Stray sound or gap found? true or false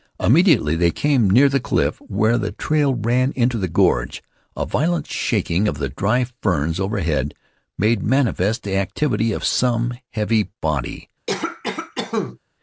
true